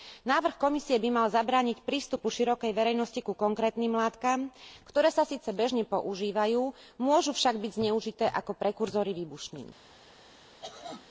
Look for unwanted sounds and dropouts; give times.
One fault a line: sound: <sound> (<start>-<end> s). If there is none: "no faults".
sound: cough (10.2-11.1 s)